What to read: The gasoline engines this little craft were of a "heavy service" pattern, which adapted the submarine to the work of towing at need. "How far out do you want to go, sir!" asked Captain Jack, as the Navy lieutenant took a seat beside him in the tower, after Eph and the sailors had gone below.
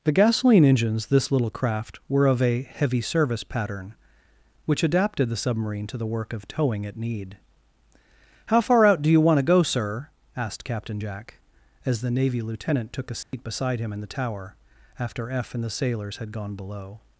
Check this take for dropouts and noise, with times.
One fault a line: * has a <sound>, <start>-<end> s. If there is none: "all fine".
* has a dropout, 13.2-13.3 s